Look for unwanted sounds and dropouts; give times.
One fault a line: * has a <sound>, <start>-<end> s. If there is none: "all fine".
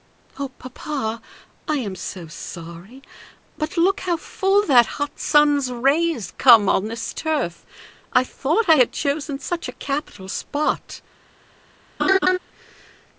* has a laugh, 12.0-12.4 s